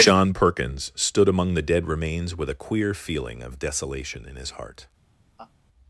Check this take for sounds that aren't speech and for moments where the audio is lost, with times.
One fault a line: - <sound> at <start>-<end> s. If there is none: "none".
- laugh at 5.4-5.5 s